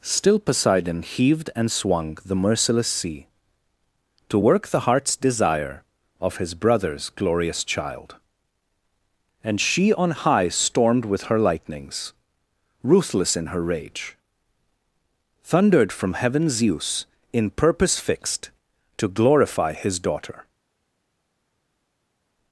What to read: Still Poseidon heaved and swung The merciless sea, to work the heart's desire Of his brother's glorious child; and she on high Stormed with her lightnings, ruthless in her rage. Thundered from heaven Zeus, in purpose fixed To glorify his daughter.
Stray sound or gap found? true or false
false